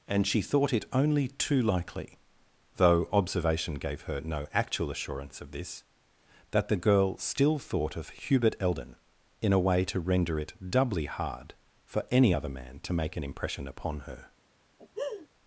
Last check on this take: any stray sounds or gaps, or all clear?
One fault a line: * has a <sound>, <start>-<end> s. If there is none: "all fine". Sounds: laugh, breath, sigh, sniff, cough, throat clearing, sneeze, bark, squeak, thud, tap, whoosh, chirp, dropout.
* has a laugh, 14.8-15.3 s